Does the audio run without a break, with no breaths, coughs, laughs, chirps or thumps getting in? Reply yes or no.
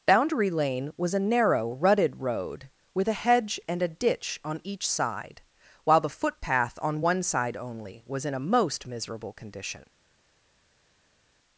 yes